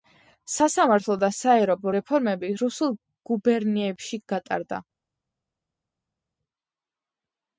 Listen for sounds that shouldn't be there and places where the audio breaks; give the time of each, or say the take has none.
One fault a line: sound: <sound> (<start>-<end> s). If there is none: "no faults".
no faults